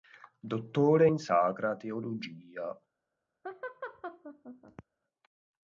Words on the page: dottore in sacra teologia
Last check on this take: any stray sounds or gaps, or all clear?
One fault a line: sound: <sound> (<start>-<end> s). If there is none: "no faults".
sound: laugh (3.4-4.8 s)